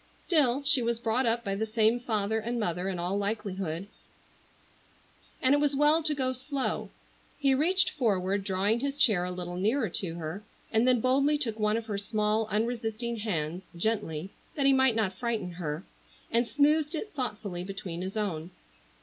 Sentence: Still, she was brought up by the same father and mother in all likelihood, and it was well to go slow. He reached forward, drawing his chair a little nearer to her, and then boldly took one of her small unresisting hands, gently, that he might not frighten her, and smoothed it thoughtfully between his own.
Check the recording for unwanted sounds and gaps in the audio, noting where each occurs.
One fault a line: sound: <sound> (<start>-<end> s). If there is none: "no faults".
no faults